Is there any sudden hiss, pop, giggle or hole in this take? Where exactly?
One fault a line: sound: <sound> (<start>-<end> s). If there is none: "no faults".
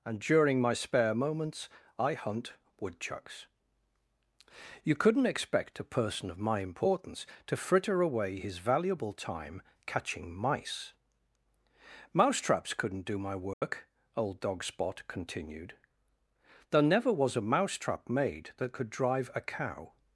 sound: dropout (13.5-13.6 s)